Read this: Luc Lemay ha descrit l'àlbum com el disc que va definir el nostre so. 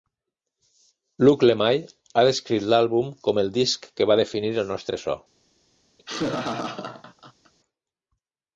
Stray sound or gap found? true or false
true